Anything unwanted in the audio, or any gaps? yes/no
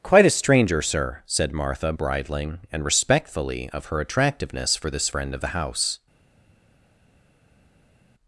no